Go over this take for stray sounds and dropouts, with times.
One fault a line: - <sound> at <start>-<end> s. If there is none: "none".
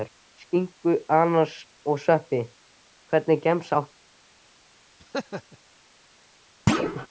- laugh at 5.0-5.6 s
- thud at 6.7-7.1 s